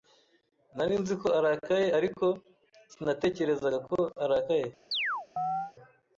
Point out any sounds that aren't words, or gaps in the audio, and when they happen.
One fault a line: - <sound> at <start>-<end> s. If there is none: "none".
- chirp at 4.9-5.7 s